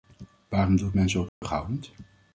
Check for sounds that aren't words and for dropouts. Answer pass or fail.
fail